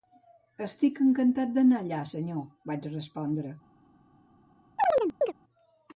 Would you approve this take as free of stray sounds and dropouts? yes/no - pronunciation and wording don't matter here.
no